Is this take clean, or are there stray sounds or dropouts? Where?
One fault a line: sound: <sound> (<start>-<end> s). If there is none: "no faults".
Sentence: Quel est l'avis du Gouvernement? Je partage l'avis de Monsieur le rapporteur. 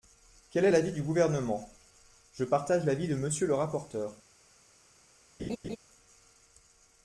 sound: laugh (5.4-5.8 s)